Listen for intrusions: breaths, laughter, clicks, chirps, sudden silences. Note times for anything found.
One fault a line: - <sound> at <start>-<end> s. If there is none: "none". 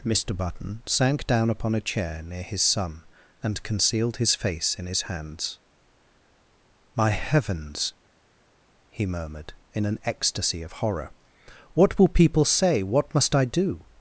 none